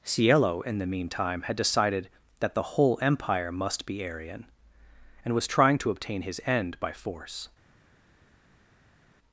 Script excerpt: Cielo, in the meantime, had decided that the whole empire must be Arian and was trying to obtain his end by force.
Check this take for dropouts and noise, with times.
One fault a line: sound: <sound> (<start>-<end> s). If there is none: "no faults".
no faults